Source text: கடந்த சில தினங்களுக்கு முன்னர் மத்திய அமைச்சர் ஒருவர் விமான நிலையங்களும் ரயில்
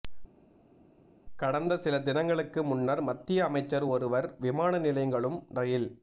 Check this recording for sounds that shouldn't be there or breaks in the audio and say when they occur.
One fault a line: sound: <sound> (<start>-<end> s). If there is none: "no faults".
no faults